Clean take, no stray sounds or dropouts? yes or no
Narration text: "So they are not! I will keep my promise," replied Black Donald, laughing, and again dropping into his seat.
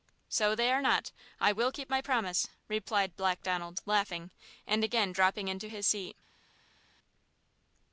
yes